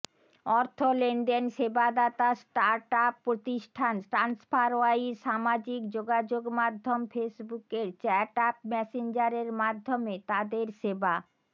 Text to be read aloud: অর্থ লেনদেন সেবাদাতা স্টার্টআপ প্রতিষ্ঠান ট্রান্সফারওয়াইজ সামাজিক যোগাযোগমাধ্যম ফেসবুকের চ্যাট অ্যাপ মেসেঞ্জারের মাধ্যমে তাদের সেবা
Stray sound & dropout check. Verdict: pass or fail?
pass